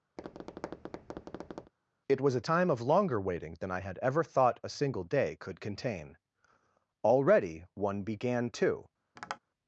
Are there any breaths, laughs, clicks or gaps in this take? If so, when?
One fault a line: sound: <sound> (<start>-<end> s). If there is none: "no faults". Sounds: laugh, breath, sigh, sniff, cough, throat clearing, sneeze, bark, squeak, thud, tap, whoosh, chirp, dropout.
sound: tap (0.2-1.7 s)
sound: tap (9.2-9.4 s)